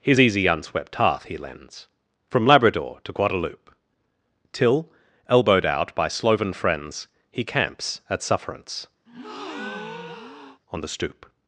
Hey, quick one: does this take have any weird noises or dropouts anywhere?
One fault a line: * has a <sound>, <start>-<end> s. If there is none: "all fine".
* has a breath, 9.1-10.6 s